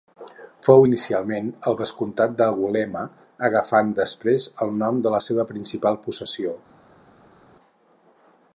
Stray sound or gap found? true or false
false